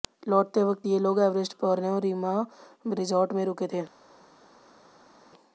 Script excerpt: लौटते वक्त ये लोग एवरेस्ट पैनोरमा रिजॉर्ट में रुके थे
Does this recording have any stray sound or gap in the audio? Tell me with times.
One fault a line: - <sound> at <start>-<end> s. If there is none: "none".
none